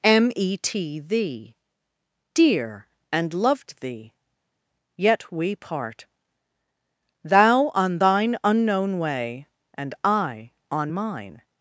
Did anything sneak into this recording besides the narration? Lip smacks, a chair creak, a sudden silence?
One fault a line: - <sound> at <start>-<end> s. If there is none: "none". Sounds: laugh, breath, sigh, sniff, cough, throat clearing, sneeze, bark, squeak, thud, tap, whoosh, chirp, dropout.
none